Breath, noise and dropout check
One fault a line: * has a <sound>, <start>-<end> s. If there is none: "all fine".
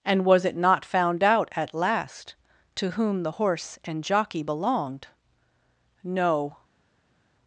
all fine